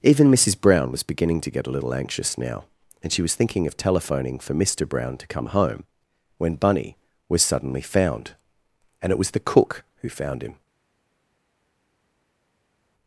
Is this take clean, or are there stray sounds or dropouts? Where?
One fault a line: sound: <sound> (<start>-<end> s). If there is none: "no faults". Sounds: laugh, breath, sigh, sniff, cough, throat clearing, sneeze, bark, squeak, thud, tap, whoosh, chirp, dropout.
no faults